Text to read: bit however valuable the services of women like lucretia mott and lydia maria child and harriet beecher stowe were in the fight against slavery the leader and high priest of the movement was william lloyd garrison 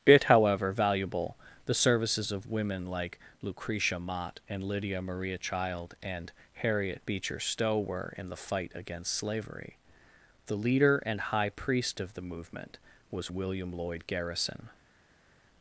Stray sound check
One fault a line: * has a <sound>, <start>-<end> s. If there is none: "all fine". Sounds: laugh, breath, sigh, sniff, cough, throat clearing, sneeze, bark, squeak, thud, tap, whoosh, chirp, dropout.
all fine